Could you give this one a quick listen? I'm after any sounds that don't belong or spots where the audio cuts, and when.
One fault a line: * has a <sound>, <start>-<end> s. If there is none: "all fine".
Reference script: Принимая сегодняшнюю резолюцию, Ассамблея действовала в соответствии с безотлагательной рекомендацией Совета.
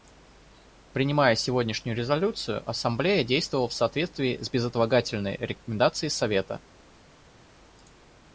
all fine